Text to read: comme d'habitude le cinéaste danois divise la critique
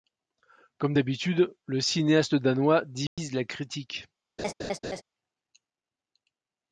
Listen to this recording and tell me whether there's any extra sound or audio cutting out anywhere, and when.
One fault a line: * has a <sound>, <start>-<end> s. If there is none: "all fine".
* has a dropout, 3.1-3.2 s
* has a laugh, 4.4-5.0 s